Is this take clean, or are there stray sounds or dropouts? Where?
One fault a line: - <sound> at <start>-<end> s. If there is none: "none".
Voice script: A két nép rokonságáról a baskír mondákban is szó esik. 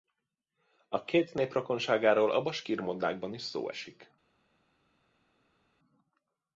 none